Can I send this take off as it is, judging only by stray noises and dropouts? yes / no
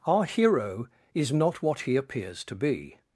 yes